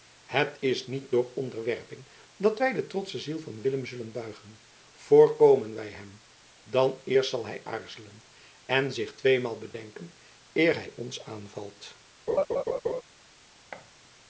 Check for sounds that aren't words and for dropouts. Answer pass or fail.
fail